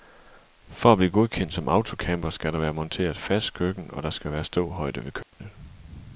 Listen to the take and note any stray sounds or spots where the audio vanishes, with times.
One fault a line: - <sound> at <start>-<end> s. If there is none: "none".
- dropout at 5.2-5.3 s